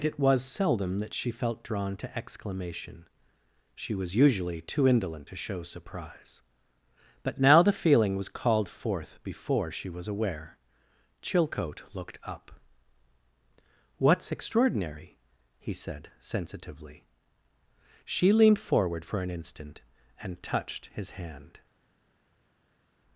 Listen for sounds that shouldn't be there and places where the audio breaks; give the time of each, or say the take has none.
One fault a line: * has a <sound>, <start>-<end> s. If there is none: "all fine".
all fine